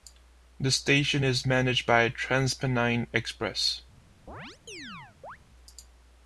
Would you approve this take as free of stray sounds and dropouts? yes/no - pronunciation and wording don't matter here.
no